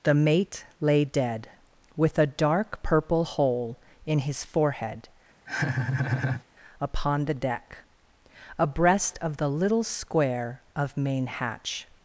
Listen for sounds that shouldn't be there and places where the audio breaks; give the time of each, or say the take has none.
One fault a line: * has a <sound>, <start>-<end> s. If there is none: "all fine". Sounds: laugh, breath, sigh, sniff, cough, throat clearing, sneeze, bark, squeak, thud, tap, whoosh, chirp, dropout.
* has a laugh, 5.5-6.4 s